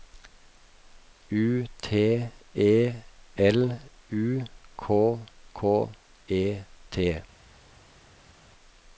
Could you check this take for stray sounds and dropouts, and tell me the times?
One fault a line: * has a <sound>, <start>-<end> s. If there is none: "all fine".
all fine